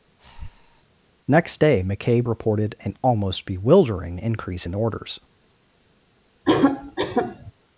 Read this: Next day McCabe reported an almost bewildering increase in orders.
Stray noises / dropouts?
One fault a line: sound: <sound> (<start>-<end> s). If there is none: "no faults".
sound: breath (0.2-0.8 s)
sound: cough (6.4-7.5 s)